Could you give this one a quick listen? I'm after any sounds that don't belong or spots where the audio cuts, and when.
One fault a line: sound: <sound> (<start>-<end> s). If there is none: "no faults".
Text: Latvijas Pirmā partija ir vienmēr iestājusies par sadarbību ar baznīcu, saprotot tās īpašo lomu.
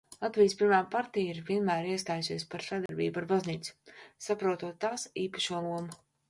sound: dropout (2.9-2.9 s)